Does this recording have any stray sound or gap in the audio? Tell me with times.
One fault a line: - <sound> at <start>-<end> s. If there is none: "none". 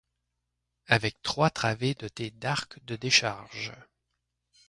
none